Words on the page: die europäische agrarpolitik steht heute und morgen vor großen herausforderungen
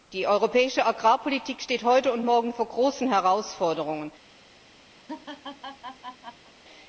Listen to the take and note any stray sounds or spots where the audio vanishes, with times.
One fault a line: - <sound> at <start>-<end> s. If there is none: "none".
- laugh at 5.0-6.5 s